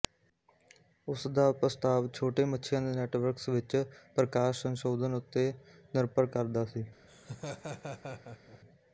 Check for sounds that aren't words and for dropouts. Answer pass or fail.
fail